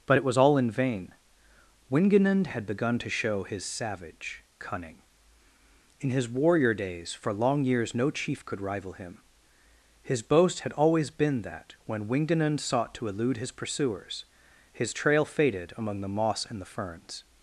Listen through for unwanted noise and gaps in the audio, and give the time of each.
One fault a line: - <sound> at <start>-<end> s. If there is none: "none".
none